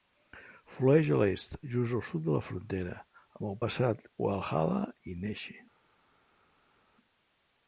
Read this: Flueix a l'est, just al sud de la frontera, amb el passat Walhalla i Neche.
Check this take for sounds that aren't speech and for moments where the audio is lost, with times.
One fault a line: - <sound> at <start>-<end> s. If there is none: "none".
none